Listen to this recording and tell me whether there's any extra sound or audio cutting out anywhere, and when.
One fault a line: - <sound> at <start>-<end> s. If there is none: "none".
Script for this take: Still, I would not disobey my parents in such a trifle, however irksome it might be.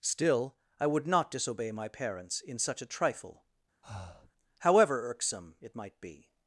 - breath at 3.8-4.3 s